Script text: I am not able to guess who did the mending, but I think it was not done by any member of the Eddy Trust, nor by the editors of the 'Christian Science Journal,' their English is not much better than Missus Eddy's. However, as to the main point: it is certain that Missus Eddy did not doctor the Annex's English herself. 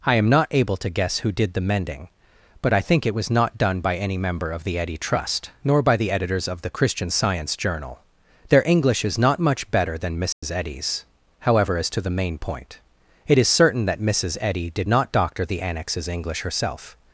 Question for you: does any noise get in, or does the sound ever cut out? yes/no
yes